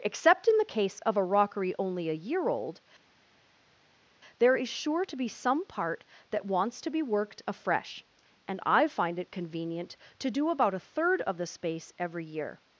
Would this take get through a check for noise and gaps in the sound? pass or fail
pass